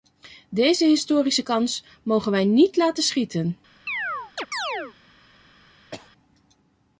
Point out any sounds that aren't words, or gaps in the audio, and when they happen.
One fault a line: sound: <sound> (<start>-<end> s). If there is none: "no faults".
sound: chirp (3.9-4.9 s)
sound: cough (5.9-6.1 s)